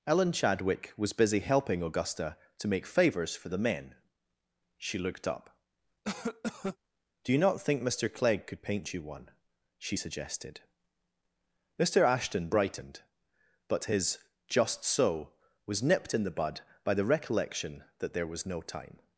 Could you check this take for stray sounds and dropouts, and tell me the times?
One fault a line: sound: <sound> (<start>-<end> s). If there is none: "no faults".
sound: cough (6.0-6.8 s)